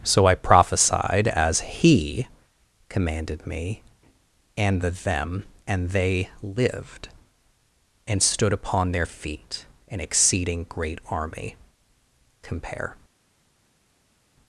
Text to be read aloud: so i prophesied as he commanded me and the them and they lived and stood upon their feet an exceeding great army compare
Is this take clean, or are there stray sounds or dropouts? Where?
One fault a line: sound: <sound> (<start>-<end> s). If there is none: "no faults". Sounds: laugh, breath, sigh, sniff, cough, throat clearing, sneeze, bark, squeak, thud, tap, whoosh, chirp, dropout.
no faults